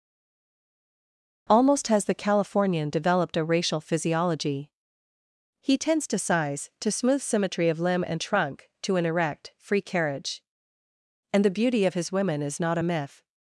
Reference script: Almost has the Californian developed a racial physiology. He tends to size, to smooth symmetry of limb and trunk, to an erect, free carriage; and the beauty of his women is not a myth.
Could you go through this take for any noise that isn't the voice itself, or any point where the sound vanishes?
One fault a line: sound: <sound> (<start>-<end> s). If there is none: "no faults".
no faults